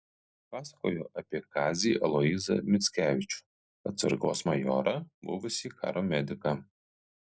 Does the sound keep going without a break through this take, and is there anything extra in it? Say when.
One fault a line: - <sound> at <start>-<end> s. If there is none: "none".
none